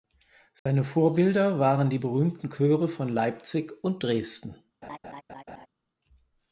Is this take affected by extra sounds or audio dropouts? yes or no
yes